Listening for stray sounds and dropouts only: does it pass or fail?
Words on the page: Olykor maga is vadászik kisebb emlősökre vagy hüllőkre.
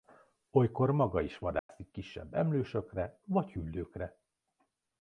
fail